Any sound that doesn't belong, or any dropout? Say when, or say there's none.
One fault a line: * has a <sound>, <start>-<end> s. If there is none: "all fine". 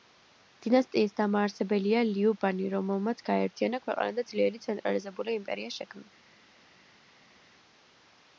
all fine